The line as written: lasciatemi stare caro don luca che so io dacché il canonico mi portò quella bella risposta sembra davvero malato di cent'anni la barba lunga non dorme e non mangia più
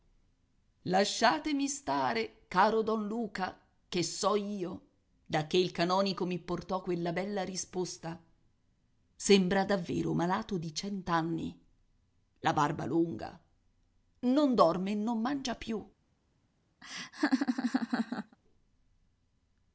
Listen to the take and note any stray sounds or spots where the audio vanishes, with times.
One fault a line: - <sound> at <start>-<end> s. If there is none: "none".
- laugh at 16.8-18.4 s